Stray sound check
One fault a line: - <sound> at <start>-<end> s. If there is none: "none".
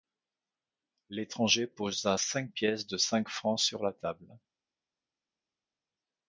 none